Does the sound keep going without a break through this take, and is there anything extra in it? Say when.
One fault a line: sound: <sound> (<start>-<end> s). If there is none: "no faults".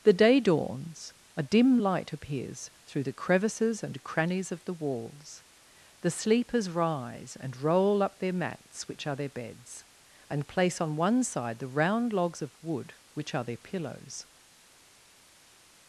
no faults